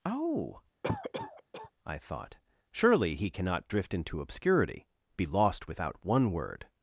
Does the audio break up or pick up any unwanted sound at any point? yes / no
yes